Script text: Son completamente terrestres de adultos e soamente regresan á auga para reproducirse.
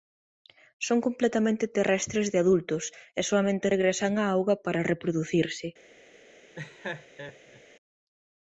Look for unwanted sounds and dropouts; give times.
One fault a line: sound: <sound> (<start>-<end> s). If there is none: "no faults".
sound: laugh (6.5-7.6 s)